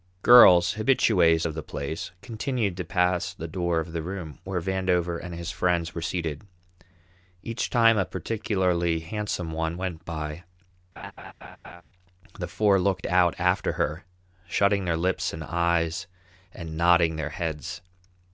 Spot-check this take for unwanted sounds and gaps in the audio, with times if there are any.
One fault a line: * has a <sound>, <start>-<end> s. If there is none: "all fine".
* has a laugh, 11.0-11.8 s